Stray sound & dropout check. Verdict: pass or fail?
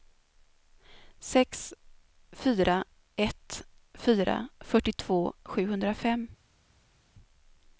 pass